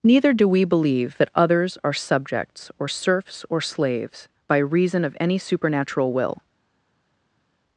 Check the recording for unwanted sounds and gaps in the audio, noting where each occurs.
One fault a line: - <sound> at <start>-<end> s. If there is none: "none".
none